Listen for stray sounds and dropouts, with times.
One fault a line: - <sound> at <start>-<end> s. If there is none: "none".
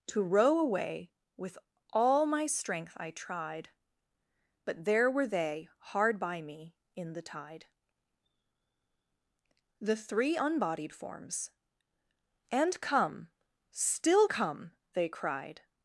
none